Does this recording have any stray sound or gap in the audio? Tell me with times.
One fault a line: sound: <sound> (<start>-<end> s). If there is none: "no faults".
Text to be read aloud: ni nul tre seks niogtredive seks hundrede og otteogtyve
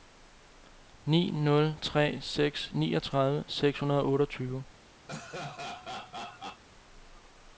sound: laugh (5.1-6.6 s)